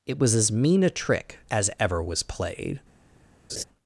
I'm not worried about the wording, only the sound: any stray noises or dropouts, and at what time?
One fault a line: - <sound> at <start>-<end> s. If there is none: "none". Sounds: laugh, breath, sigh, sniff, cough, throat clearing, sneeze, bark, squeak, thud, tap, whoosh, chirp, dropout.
- laugh at 3.5-3.6 s